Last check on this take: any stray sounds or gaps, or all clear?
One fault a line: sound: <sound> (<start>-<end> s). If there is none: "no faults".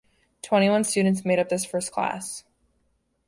no faults